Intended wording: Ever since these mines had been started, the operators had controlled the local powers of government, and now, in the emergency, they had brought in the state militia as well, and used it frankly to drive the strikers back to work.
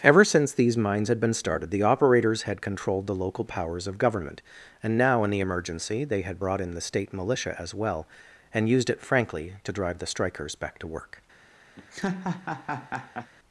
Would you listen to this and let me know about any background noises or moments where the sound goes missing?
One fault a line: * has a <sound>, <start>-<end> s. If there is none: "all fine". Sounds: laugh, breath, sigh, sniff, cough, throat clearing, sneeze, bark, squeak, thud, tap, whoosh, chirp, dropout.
* has a laugh, 11.8-13.3 s